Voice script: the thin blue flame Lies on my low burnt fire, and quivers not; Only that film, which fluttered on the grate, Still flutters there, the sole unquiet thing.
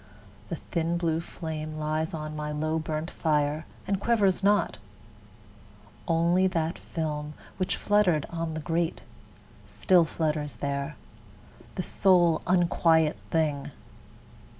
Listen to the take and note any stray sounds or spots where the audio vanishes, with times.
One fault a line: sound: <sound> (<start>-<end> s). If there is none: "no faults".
no faults